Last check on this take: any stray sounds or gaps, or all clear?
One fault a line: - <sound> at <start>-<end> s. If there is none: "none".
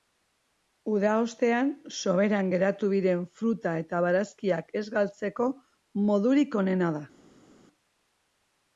none